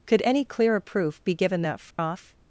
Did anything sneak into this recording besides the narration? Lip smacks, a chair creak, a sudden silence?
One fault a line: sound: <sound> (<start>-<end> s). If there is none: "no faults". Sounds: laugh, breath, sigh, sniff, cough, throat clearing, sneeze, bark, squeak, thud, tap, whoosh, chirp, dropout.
sound: dropout (1.9-2.0 s)